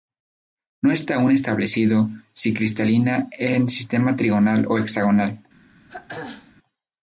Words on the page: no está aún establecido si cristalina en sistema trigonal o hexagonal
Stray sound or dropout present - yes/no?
yes